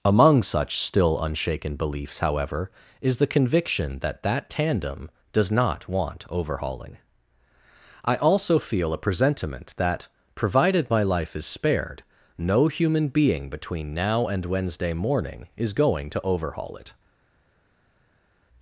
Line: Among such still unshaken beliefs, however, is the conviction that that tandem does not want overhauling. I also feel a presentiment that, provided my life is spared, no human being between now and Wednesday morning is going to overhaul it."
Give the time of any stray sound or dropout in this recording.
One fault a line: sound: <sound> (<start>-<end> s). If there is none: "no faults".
no faults